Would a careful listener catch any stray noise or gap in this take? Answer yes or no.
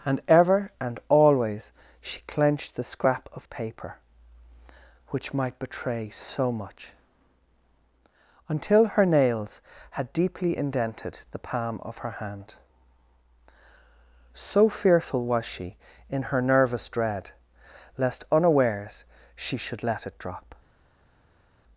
no